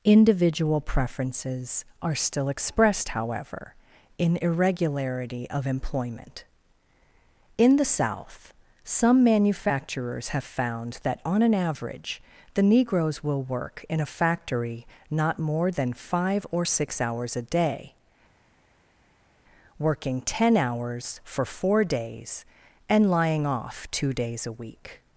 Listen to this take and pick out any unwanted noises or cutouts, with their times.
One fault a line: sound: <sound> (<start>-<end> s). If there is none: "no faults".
no faults